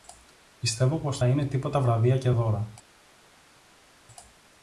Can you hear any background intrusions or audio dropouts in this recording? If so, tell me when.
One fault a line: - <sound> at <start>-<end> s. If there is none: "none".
none